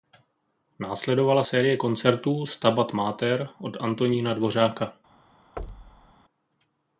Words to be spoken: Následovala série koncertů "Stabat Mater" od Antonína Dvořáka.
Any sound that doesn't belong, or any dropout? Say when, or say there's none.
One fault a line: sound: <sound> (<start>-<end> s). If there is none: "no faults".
sound: thud (5.6-6.1 s)